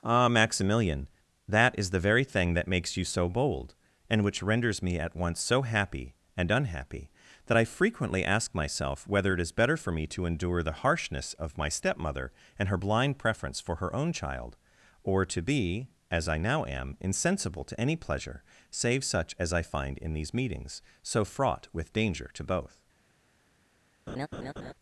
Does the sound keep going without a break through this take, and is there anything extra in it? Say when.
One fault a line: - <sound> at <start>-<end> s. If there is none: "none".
- laugh at 24.1-24.7 s